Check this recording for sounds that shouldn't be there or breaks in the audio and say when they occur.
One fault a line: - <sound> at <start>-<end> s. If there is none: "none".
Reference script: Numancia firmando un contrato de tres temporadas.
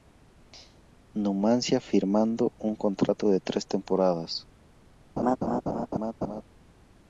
- laugh at 5.2-6.4 s